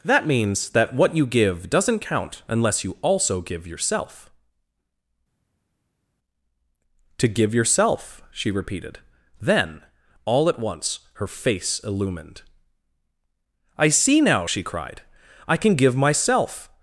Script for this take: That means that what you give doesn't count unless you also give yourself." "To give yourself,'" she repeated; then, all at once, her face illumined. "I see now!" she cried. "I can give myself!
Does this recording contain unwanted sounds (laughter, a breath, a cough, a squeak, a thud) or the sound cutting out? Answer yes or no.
no